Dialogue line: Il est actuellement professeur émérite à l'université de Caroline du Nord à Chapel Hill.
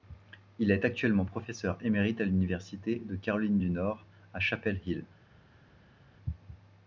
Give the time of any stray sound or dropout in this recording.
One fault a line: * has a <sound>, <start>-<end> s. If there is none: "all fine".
all fine